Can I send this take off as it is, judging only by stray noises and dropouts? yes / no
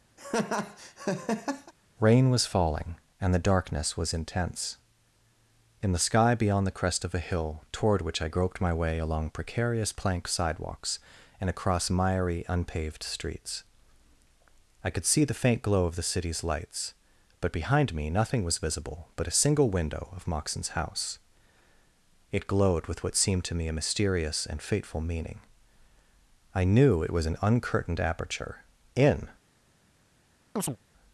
no